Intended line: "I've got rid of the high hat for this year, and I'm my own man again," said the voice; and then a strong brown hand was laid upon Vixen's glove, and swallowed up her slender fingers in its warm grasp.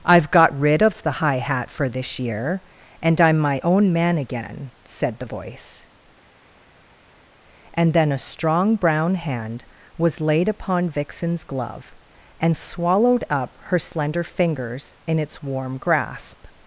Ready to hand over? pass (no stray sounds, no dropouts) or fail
pass